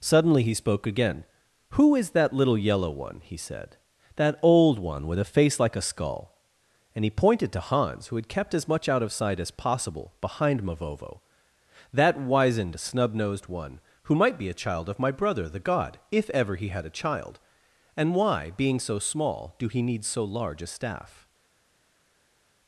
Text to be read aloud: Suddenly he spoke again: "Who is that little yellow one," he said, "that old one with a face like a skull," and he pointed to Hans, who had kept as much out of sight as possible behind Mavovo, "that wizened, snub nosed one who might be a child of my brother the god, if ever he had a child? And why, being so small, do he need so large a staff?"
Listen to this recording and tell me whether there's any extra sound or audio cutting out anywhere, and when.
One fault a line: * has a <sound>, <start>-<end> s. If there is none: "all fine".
all fine